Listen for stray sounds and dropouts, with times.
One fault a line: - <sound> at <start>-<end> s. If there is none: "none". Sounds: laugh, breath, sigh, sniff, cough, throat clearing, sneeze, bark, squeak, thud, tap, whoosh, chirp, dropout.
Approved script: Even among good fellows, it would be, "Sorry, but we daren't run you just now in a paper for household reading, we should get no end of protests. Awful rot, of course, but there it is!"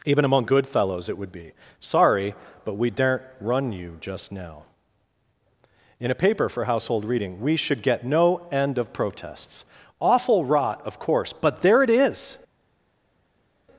none